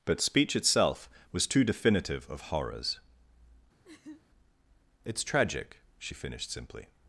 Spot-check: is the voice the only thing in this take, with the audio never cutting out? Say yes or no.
no